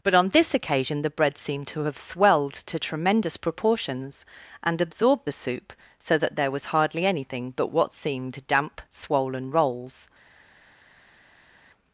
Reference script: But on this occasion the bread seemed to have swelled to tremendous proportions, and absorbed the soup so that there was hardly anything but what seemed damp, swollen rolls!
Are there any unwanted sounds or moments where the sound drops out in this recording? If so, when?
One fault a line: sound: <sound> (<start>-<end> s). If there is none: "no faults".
no faults